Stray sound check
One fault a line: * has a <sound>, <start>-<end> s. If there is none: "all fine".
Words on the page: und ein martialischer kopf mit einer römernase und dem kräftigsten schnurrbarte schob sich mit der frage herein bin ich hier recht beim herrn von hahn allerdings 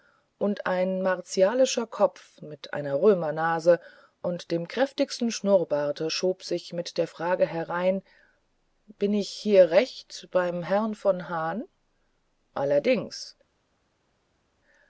all fine